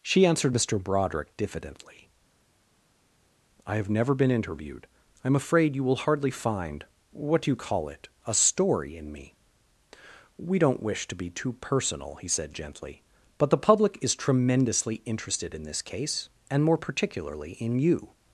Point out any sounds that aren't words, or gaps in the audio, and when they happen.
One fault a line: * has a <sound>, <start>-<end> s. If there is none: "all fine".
all fine